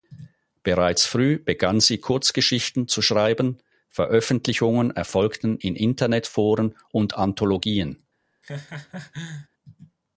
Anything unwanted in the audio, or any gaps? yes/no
yes